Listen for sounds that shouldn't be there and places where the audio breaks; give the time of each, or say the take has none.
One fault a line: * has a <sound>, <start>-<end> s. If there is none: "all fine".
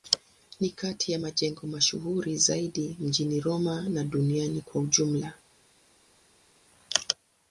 all fine